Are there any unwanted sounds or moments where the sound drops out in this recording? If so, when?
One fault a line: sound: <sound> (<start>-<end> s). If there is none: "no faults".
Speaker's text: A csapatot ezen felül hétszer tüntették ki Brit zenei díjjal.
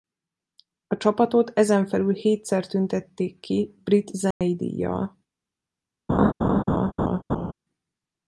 sound: dropout (4.3-4.4 s)
sound: laugh (6.1-7.5 s)